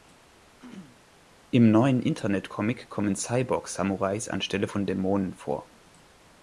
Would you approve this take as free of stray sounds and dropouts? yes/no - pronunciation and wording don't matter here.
no